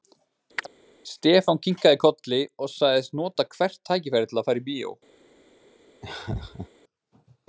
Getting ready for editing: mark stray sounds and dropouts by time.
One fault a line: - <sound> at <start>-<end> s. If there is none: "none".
- chirp at 0.6-0.7 s
- laugh at 6.0-6.7 s